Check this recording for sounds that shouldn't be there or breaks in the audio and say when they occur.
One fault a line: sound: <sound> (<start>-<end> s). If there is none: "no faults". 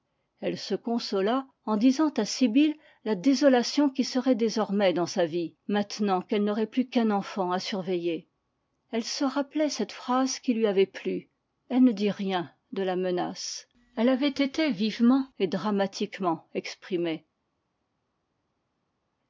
no faults